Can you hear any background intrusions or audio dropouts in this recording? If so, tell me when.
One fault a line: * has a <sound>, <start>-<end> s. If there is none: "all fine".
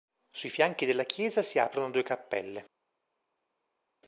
all fine